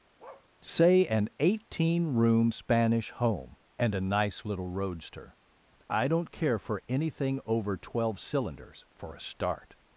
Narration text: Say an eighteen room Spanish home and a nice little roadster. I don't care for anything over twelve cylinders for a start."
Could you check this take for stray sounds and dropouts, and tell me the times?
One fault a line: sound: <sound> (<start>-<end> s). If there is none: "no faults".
sound: bark (0.2-0.5 s)